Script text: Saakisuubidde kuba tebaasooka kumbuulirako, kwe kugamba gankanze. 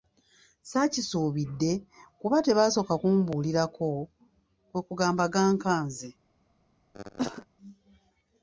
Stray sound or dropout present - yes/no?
yes